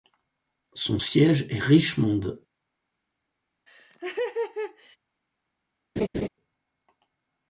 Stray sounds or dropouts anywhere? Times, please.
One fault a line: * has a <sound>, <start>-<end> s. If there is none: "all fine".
* has a laugh, 3.7-5.0 s
* has a laugh, 6.0-6.3 s